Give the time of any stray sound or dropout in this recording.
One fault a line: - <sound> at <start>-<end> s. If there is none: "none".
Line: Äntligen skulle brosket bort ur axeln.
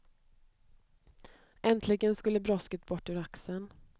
none